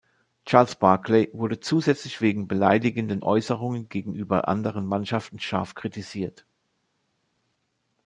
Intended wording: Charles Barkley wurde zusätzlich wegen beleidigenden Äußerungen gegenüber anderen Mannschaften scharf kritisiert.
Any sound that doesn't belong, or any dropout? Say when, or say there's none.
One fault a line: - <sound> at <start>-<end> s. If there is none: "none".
none